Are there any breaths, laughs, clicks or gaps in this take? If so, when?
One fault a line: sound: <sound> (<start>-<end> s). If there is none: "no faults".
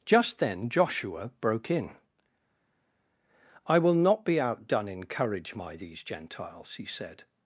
no faults